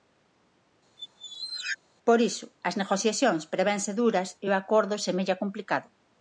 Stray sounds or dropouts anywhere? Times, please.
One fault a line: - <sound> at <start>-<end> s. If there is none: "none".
- squeak at 1.0-1.8 s